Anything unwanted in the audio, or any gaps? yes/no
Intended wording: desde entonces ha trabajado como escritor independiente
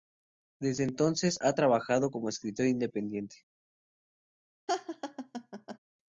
yes